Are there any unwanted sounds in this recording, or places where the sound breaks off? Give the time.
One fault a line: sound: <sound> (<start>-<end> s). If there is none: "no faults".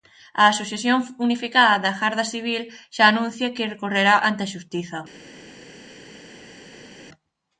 no faults